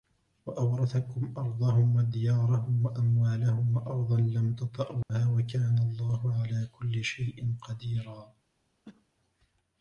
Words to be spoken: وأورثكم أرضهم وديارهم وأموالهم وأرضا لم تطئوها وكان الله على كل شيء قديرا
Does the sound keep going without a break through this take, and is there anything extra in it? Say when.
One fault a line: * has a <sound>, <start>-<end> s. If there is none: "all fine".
* has a dropout, 5.0-5.1 s
* has a cough, 8.8-9.1 s